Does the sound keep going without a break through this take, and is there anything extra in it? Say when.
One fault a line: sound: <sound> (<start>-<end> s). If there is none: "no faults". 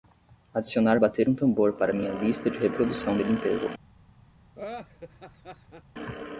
sound: laugh (4.6-5.8 s)